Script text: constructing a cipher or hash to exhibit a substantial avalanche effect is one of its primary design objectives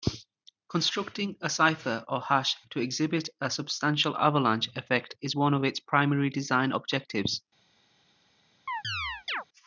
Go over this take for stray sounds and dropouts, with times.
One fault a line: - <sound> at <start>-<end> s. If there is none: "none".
- chirp at 8.7-9.4 s